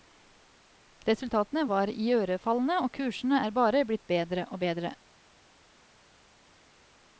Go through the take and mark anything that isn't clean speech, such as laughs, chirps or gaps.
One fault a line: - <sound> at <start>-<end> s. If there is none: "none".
none